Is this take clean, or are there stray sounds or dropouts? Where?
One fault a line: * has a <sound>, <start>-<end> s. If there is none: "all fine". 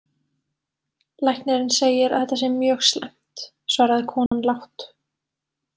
* has a dropout, 4.3-4.3 s